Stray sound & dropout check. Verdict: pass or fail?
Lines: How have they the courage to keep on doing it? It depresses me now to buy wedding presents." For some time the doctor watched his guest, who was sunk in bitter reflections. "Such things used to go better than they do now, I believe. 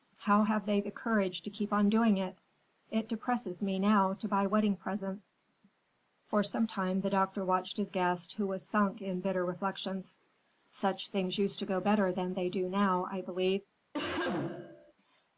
fail